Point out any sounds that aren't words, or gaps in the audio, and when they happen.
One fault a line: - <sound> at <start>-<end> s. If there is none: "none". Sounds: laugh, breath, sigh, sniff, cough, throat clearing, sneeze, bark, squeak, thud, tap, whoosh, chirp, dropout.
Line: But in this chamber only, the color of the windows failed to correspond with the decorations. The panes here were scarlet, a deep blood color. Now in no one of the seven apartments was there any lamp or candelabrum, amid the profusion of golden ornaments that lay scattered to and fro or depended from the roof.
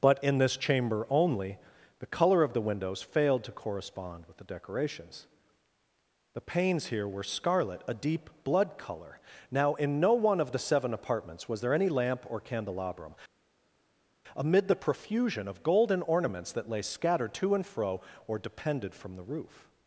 none